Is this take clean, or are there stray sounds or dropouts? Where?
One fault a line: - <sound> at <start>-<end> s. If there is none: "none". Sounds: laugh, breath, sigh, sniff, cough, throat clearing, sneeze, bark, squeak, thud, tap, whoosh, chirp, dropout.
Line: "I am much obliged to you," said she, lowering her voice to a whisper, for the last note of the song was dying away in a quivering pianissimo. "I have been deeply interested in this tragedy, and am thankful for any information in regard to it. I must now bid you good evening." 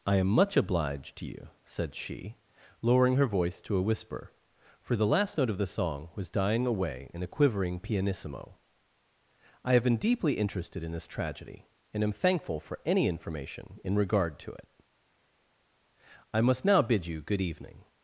none